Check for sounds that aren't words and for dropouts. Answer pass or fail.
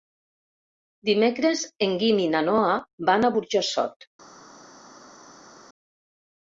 pass